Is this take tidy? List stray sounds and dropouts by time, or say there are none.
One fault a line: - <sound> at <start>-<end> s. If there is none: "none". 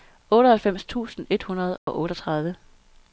- dropout at 1.8-1.9 s